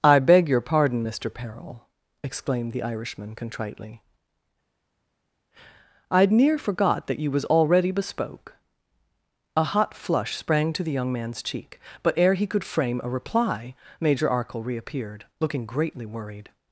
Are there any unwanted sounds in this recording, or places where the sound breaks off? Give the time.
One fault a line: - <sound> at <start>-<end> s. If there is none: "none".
none